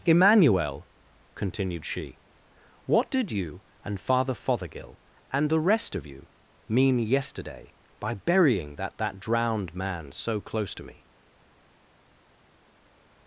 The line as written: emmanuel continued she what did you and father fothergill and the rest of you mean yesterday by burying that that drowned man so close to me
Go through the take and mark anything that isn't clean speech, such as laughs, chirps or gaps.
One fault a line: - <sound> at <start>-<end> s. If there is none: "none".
none